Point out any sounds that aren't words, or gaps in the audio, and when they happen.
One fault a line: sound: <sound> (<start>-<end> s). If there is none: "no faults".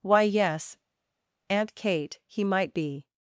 no faults